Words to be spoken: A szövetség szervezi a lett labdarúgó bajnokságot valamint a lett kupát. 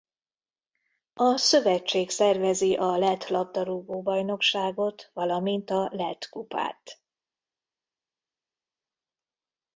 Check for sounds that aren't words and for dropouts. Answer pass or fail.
pass